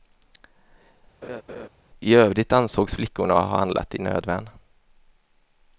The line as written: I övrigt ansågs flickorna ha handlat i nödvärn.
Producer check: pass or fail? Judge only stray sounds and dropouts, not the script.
fail